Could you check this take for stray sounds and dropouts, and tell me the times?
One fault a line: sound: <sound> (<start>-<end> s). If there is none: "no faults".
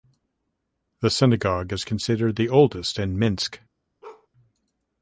sound: bark (4.0-4.3 s)